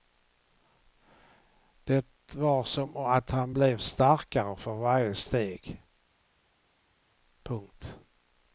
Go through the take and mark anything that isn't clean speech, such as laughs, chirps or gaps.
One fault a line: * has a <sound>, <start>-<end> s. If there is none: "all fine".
all fine